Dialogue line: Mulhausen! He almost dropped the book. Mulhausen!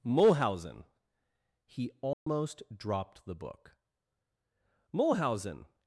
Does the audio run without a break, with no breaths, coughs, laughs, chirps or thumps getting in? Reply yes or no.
no